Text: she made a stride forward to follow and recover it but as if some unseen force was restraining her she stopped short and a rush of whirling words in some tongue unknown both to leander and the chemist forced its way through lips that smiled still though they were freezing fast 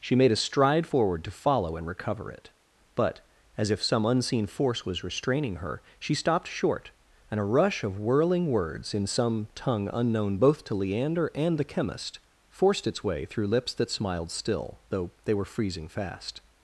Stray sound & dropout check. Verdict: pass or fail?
pass